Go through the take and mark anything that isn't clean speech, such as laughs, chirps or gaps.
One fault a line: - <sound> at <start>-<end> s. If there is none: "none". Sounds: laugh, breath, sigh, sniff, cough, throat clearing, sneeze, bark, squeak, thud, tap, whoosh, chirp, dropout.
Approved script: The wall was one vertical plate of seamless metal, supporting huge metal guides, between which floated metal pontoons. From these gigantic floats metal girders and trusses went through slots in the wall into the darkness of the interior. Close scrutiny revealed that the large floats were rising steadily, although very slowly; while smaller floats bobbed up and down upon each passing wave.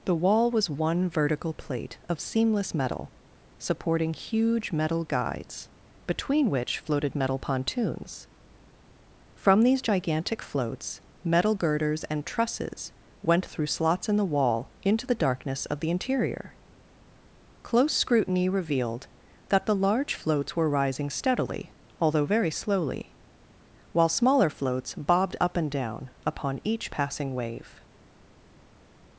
none